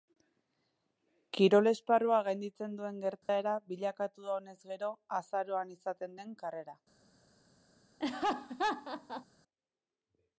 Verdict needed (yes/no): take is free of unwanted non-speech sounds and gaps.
no